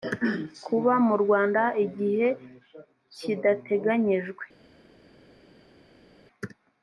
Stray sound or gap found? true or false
false